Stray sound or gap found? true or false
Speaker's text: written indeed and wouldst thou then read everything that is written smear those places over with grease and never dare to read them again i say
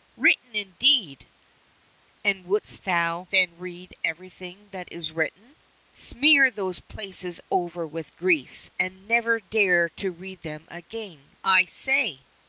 false